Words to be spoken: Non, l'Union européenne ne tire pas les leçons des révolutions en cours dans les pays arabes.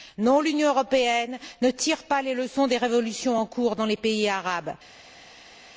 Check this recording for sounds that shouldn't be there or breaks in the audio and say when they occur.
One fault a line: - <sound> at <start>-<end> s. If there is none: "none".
none